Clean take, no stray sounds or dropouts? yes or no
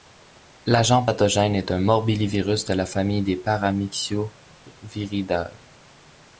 yes